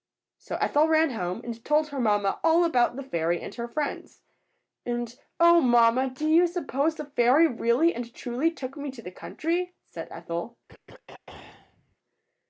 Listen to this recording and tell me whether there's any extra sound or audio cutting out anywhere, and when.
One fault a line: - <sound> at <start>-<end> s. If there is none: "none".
- throat clearing at 10.7-12.0 s